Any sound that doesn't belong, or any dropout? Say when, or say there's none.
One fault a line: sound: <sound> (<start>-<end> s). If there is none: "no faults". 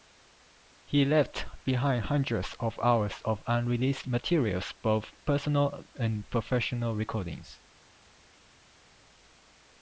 no faults